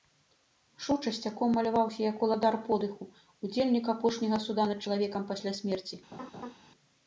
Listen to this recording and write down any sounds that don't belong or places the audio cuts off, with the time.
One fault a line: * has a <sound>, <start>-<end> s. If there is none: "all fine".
* has a laugh, 6.1-6.5 s